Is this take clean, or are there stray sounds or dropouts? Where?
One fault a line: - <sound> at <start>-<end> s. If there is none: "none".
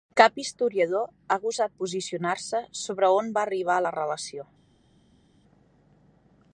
none